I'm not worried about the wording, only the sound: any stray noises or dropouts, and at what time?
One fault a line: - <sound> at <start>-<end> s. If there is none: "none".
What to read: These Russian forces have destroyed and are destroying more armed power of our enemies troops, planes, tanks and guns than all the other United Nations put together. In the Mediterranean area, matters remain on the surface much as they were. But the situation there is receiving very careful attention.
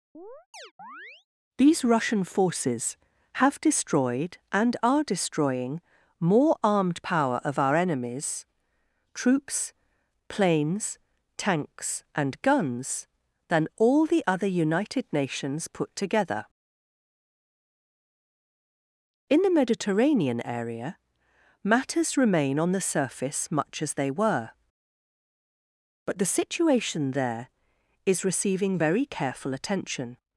- chirp at 0.1-1.3 s